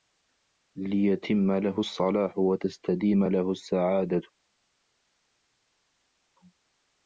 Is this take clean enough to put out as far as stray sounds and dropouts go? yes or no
yes